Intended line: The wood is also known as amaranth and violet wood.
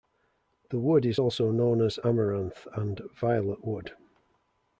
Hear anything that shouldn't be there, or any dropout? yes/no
no